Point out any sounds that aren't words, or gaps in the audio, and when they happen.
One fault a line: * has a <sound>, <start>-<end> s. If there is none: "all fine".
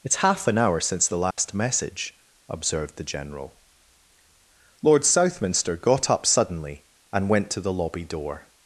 * has a dropout, 1.3-1.4 s